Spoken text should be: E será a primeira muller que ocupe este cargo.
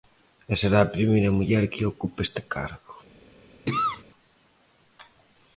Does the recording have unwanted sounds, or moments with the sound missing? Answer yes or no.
yes